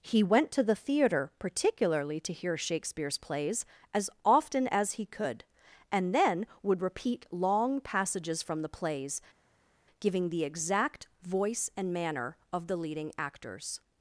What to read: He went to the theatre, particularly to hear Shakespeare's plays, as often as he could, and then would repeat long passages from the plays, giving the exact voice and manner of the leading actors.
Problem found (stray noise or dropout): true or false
false